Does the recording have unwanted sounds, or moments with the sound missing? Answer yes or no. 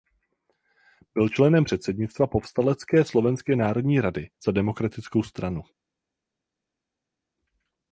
no